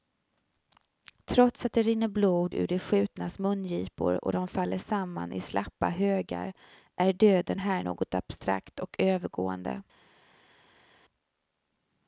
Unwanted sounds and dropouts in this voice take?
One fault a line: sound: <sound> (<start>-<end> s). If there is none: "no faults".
no faults